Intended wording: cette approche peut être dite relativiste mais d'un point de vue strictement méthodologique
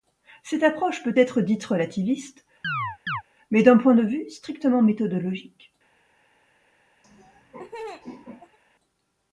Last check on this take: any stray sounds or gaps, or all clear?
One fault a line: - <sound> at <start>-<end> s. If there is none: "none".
- chirp at 2.6-3.2 s
- laugh at 7.0-8.6 s